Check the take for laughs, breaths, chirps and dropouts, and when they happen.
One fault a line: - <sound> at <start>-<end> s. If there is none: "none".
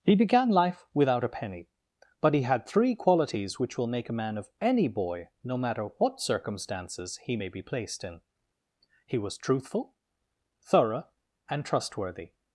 none